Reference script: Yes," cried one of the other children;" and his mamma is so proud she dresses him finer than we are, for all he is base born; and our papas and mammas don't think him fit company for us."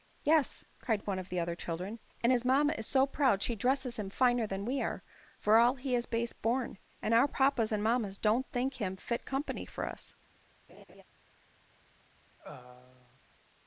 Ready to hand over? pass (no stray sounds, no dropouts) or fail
fail